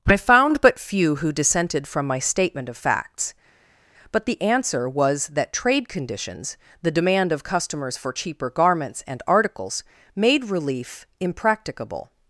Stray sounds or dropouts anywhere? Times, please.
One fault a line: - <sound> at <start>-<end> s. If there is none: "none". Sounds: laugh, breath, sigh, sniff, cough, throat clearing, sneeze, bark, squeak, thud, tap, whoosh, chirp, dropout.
none